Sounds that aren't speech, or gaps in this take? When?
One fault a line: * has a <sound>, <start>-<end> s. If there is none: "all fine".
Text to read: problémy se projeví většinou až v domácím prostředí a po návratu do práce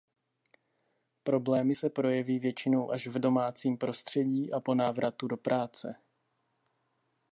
all fine